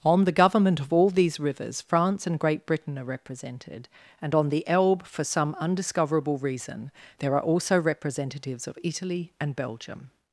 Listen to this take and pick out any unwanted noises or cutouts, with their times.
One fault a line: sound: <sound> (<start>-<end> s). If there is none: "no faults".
no faults